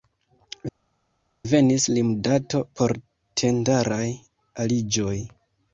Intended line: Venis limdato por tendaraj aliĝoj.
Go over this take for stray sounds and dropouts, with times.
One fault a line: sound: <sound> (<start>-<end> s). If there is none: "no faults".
no faults